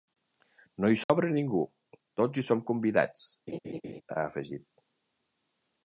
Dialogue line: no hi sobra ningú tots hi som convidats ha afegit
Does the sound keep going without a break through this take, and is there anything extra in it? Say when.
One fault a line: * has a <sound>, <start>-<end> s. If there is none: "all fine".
* has a dropout, 1.0-1.1 s
* has a laugh, 3.5-4.0 s